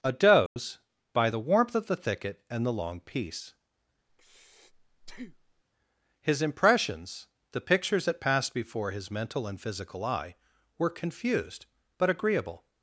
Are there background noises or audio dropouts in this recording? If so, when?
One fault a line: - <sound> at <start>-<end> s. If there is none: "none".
- dropout at 0.5-0.6 s
- breath at 4.1-5.6 s